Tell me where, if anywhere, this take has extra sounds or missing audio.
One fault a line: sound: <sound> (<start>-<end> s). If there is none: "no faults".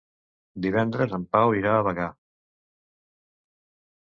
no faults